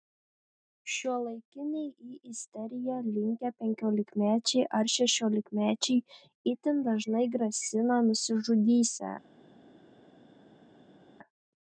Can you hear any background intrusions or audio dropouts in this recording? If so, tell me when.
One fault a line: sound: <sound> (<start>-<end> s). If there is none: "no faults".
no faults